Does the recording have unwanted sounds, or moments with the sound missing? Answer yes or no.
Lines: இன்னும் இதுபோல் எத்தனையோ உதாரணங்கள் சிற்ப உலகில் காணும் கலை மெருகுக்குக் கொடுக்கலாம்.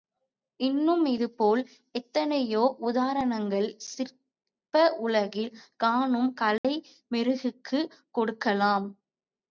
yes